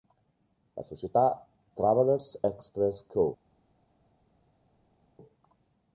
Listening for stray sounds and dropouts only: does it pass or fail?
pass